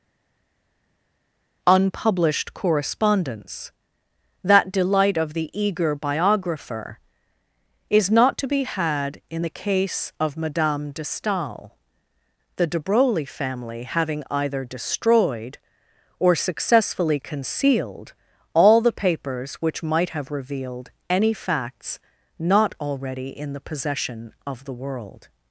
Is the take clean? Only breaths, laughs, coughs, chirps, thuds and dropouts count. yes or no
yes